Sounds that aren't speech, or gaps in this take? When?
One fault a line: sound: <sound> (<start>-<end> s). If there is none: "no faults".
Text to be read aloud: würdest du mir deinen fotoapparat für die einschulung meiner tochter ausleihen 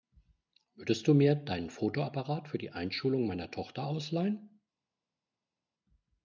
no faults